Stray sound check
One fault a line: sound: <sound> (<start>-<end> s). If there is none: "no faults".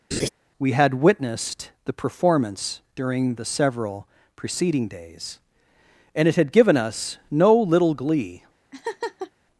sound: laugh (0.1-0.3 s)
sound: laugh (8.7-9.3 s)